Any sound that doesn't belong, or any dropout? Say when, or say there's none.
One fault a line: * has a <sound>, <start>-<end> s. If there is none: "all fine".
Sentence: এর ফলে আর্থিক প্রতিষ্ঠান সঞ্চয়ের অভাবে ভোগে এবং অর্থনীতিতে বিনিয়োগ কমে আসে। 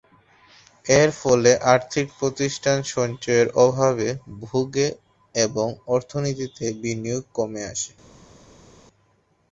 all fine